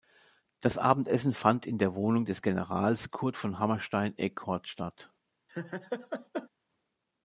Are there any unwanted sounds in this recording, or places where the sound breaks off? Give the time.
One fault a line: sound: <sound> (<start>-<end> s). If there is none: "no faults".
sound: laugh (5.5-6.5 s)